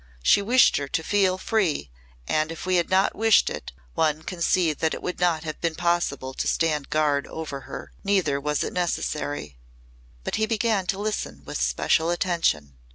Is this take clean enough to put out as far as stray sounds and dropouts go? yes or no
yes